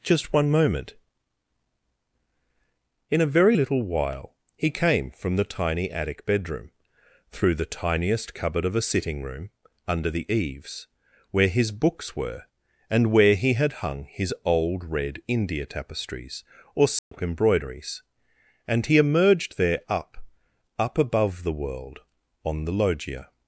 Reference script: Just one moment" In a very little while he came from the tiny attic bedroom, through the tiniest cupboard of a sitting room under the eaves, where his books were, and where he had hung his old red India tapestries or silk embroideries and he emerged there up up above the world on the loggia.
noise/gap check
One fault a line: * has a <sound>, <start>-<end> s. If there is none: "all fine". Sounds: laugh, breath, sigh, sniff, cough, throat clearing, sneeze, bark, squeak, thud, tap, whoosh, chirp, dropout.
* has a dropout, 17.0-17.1 s